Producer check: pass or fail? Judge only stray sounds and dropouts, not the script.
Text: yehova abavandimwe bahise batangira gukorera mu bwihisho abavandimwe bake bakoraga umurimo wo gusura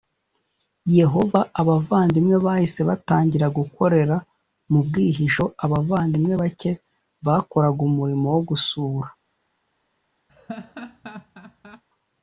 fail